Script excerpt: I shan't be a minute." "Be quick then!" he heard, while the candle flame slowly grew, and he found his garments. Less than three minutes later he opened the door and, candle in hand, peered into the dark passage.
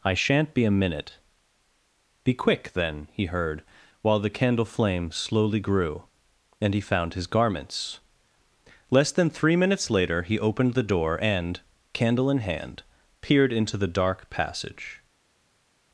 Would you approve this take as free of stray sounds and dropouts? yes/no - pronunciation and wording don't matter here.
yes